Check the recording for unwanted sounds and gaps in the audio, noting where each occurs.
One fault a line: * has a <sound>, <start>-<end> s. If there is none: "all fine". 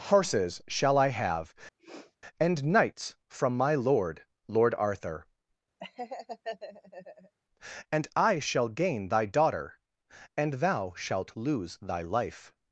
* has a sniff, 1.8-2.2 s
* has a laugh, 5.8-7.4 s